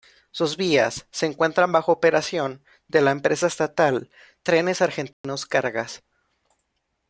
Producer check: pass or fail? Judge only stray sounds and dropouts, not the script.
fail